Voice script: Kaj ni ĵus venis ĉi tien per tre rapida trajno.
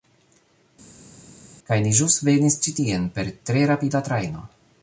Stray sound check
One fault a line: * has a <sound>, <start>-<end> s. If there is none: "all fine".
all fine